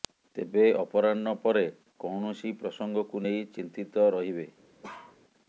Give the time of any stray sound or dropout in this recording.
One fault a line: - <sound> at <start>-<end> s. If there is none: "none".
- bark at 4.8-5.2 s